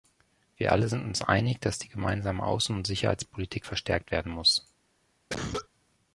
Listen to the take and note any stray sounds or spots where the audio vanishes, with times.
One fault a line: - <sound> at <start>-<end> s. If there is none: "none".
- cough at 5.3-5.7 s